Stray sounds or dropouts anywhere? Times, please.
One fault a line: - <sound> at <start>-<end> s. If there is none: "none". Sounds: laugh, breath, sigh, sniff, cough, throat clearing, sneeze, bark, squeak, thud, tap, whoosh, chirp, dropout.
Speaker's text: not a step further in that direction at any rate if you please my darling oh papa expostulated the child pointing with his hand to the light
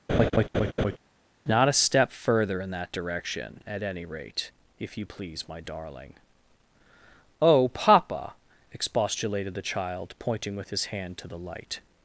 - laugh at 0.1-1.0 s